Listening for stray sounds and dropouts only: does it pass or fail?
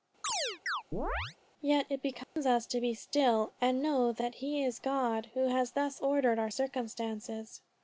fail